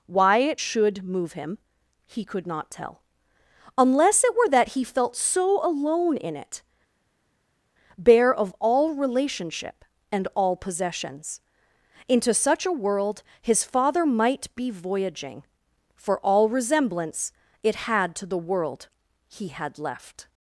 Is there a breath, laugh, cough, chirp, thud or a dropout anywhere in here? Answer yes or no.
no